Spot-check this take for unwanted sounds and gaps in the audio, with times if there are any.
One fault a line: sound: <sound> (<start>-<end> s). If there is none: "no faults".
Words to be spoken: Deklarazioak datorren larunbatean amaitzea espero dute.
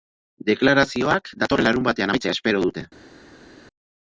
no faults